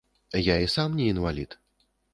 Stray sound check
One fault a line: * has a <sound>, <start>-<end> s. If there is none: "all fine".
all fine